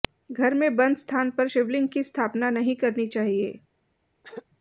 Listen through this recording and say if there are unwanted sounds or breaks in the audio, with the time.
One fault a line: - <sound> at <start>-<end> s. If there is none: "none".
- throat clearing at 4.2-4.5 s